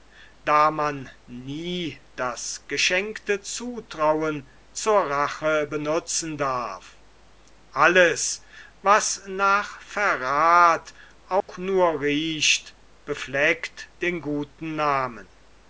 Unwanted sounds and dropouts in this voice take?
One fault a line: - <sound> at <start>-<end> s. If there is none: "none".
- dropout at 11.4-11.5 s